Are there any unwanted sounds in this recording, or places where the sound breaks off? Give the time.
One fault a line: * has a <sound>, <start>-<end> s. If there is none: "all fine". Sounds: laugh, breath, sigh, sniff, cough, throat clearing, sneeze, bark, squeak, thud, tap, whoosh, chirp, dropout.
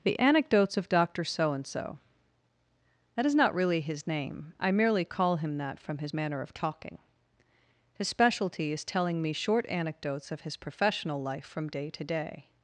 all fine